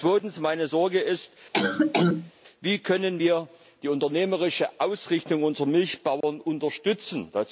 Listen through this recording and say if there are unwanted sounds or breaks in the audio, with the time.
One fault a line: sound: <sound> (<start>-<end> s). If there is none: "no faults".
sound: cough (1.5-2.3 s)
sound: dropout (6.2-6.2 s)